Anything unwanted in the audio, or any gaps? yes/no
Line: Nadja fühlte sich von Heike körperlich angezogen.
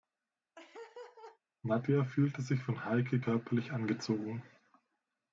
yes